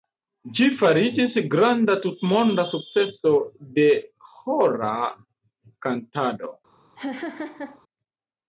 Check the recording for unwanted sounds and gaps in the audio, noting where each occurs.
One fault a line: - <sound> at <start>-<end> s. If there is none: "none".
- laugh at 7.0-7.8 s